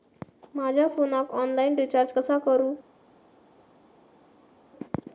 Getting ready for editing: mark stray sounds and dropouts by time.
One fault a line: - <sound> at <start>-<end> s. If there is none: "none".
none